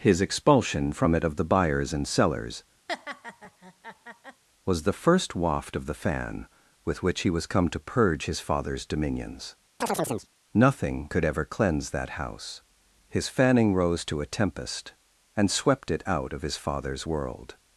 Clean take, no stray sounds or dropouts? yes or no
no